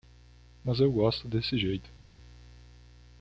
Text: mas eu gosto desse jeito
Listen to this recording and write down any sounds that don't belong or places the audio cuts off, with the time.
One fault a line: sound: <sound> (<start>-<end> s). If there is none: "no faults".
no faults